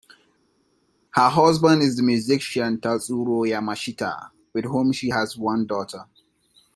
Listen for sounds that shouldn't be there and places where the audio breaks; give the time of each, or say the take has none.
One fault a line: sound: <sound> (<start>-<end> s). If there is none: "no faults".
no faults